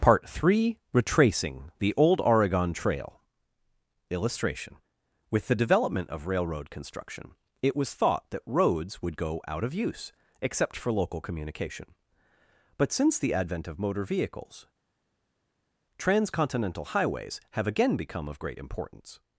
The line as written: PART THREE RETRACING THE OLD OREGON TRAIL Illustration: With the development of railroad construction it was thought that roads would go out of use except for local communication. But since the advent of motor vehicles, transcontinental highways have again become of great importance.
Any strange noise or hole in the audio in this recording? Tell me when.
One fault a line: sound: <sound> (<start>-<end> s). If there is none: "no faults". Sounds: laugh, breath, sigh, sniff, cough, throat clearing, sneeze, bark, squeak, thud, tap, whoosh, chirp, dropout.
no faults